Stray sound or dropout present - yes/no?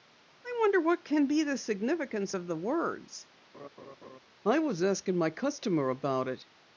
yes